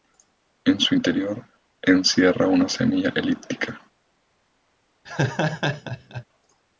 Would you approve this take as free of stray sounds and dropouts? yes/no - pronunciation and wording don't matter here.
no